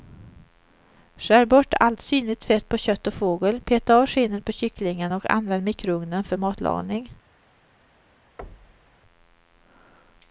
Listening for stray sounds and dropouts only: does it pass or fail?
fail